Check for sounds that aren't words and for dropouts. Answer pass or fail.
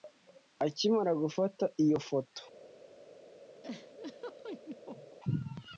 fail